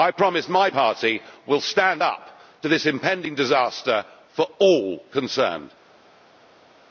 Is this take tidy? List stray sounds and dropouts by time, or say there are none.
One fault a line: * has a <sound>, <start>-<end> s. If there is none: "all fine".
all fine